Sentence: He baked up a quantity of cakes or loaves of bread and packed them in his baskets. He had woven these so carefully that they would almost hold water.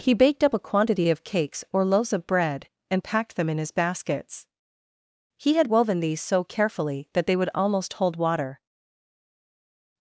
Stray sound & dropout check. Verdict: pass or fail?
pass